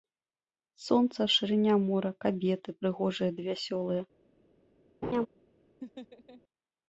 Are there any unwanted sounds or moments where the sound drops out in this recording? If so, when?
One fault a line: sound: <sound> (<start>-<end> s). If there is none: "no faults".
sound: laugh (5.0-5.3 s)
sound: laugh (5.8-6.4 s)